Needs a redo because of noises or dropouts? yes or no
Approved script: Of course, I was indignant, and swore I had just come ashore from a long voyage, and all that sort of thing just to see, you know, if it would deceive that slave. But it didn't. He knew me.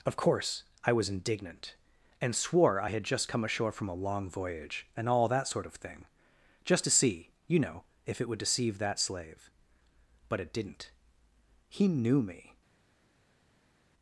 no